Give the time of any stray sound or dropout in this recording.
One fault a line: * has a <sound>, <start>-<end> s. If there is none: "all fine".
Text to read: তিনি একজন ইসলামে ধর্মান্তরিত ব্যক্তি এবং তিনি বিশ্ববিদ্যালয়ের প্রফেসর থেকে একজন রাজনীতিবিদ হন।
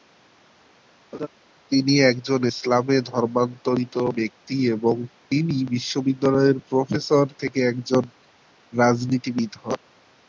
* has a laugh, 1.1-1.3 s